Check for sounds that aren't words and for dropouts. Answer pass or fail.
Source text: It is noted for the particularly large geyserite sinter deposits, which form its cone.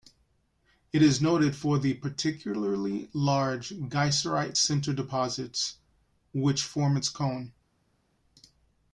pass